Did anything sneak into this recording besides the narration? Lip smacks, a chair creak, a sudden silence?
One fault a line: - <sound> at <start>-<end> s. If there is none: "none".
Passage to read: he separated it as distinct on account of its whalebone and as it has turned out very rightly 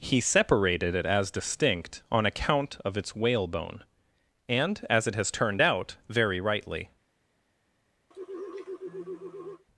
- sigh at 8.1-9.6 s